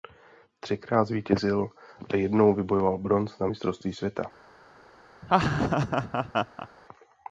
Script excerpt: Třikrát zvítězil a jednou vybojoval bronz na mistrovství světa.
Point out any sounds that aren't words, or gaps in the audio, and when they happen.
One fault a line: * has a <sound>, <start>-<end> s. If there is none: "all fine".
* has a laugh, 5.2-6.7 s